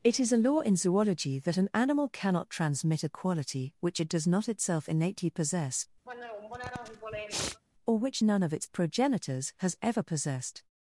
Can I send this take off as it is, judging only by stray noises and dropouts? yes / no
no